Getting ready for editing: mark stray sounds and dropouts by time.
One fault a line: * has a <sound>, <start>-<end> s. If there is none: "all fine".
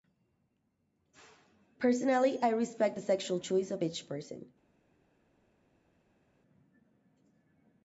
all fine